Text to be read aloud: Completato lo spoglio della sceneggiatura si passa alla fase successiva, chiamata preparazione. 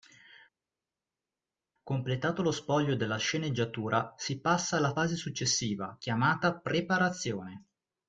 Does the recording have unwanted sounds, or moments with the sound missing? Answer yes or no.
no